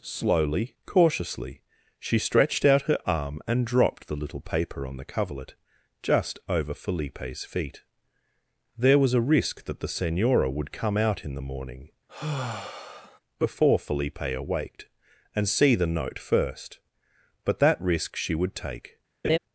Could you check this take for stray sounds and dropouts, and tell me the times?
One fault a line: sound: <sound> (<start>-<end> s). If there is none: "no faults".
sound: sigh (12.1-13.2 s)
sound: laugh (19.2-19.4 s)